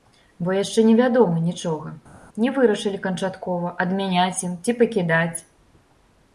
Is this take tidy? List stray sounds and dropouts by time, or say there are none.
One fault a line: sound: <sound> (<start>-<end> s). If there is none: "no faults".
no faults